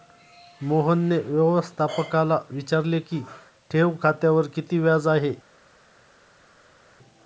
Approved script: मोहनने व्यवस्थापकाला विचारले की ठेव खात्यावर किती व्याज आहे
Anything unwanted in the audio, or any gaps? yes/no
no